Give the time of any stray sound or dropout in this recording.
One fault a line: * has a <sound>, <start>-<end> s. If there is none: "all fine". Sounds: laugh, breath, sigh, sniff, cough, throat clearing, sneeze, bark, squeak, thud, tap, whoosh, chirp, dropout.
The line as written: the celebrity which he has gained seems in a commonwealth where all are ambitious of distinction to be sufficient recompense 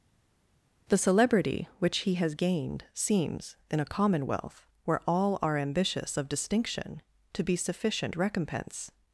all fine